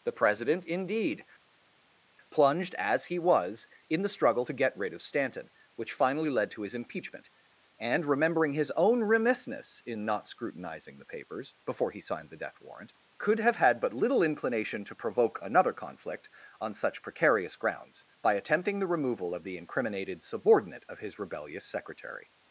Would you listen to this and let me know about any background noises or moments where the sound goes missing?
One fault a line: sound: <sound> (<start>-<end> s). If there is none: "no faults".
no faults